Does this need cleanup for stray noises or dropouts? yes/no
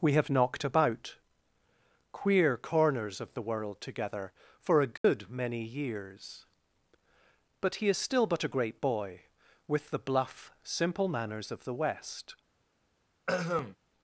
yes